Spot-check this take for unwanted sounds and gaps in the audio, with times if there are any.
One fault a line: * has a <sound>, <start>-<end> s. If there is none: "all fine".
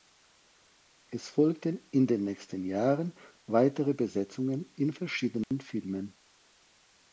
* has a dropout, 5.4-5.5 s